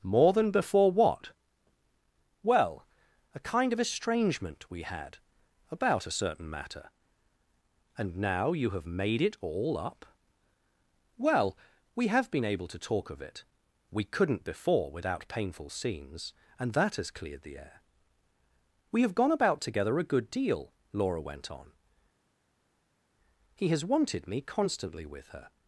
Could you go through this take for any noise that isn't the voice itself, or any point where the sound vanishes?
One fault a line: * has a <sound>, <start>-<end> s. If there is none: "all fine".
all fine